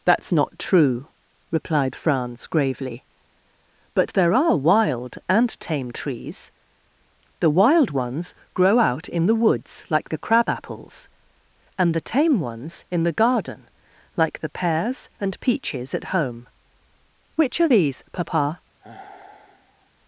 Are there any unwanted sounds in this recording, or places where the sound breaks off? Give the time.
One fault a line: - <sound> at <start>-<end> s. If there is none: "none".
- sigh at 18.8-19.9 s